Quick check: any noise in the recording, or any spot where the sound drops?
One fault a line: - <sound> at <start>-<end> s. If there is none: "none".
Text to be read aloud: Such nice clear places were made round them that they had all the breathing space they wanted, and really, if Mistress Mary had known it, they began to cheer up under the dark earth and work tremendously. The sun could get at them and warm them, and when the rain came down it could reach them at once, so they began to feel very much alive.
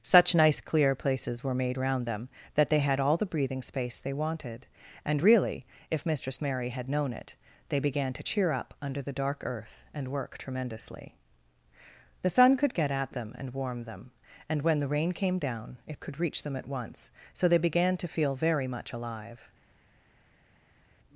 none